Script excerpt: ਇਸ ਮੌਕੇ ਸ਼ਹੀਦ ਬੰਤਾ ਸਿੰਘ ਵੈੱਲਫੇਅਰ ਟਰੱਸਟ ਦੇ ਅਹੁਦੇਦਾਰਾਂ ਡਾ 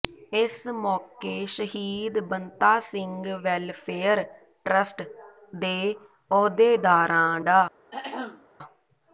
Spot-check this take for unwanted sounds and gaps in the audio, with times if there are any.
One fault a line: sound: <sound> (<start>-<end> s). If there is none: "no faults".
sound: throat clearing (7.9-8.5 s)